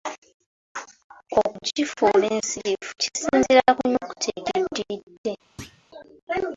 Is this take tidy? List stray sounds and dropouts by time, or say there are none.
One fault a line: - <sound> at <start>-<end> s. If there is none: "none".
- thud at 5.6-5.8 s